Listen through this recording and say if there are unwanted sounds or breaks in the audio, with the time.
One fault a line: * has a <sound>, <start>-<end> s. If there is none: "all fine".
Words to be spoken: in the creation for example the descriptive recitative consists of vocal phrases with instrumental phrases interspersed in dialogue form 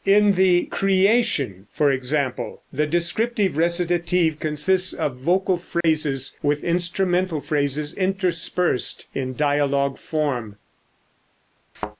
* has a dropout, 5.8-5.8 s
* has a thud, 11.7-12.0 s